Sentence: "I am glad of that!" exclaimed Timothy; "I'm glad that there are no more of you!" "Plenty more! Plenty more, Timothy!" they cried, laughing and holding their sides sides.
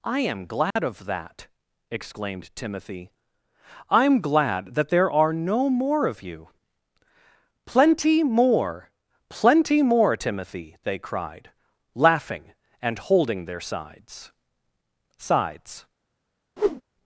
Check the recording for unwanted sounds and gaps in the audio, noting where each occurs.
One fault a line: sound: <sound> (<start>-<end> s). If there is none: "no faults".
sound: dropout (0.7-0.8 s)
sound: whoosh (16.6-16.8 s)